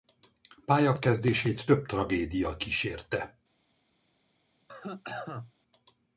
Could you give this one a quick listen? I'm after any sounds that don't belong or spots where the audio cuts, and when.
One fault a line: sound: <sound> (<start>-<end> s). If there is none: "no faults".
sound: cough (4.7-5.5 s)